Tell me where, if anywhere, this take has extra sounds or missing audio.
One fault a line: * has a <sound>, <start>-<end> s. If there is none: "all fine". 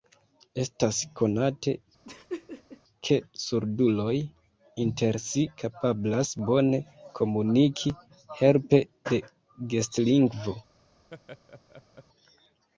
* has a laugh, 2.0-2.8 s
* has a laugh, 11.1-12.1 s